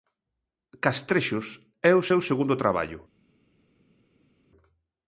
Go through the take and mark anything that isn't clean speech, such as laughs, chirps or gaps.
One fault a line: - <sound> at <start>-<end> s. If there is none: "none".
none